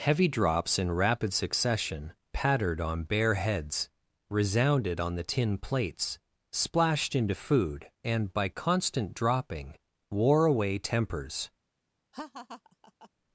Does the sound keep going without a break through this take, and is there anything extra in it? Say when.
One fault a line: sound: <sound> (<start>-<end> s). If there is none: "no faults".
sound: laugh (12.1-13.1 s)